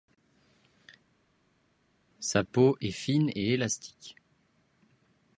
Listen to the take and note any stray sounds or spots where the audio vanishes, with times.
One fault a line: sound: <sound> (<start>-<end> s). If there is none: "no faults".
no faults